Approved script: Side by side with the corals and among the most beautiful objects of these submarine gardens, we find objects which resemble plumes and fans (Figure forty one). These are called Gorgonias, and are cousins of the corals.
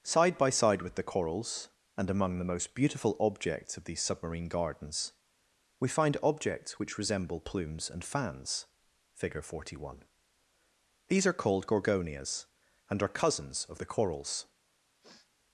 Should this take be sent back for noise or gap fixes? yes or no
yes